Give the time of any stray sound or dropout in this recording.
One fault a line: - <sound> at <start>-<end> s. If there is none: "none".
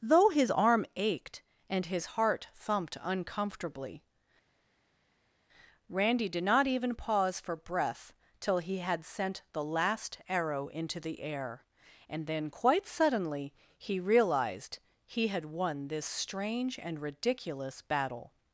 none